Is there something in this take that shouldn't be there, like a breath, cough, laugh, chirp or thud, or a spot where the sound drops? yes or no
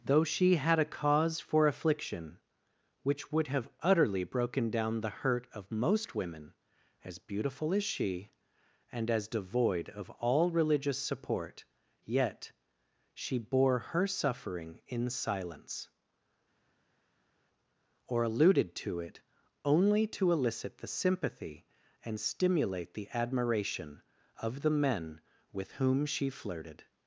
no